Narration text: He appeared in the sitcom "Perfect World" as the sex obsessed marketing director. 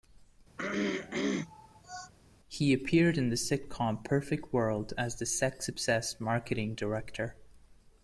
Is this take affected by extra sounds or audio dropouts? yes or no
yes